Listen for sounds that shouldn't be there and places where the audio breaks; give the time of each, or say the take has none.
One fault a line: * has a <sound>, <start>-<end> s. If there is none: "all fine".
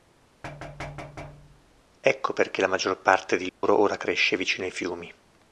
* has a thud, 0.4-1.8 s
* has a dropout, 3.5-3.6 s